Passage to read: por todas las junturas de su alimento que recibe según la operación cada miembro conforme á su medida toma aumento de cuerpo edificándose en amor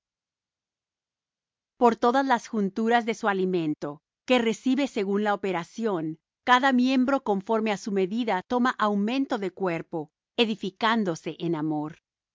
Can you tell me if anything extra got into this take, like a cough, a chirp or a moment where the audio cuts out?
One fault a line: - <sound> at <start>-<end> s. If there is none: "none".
none